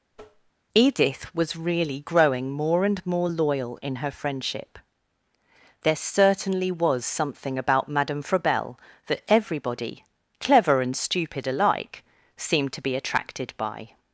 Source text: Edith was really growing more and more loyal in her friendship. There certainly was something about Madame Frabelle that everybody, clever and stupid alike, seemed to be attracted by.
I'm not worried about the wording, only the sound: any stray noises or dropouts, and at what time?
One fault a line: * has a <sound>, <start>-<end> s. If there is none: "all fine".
* has a tap, 0.1-0.5 s